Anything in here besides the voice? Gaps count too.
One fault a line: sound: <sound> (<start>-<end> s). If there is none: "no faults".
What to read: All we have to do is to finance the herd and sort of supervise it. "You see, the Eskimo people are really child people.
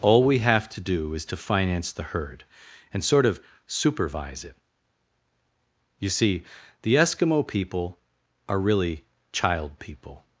no faults